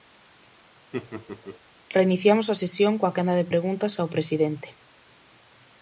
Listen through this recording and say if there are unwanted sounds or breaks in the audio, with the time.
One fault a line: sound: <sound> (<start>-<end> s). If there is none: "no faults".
sound: laugh (0.9-1.6 s)